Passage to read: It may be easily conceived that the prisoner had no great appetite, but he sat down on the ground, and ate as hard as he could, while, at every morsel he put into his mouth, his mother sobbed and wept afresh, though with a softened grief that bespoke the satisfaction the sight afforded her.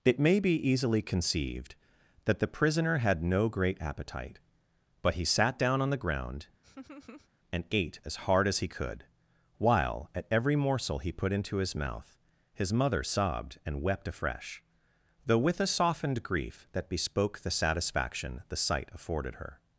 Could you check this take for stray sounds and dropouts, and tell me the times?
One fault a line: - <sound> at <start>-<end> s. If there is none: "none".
- laugh at 6.6-7.3 s